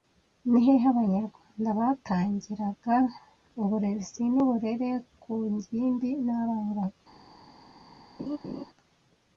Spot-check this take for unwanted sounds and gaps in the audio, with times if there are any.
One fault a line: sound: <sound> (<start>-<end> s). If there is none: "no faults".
sound: laugh (8.2-8.6 s)